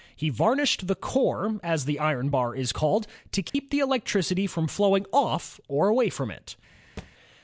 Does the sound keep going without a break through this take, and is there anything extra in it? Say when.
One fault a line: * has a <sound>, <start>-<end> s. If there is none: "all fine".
* has a dropout, 3.5-3.5 s
* has a thud, 7.0-7.1 s